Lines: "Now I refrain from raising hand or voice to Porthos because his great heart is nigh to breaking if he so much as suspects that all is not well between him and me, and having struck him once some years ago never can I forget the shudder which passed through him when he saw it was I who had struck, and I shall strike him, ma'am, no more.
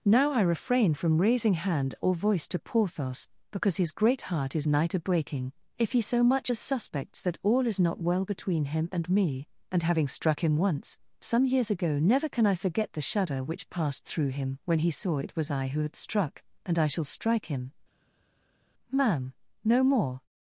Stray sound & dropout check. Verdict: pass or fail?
pass